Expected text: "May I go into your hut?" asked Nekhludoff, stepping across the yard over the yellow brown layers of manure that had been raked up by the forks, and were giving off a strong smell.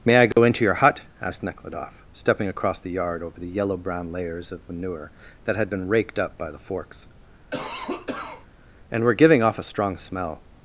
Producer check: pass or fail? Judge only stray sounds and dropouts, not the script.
fail